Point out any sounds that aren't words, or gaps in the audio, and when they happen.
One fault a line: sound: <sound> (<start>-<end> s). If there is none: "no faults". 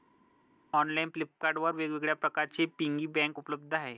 no faults